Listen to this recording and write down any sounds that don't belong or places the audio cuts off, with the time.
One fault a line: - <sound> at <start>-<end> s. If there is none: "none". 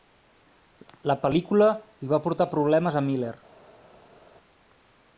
none